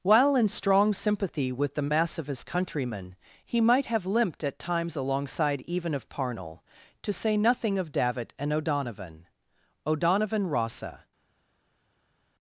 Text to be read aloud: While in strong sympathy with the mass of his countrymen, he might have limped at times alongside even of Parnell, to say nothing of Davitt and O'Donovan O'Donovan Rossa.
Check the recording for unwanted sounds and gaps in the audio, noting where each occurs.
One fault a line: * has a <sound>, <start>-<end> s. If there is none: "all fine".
all fine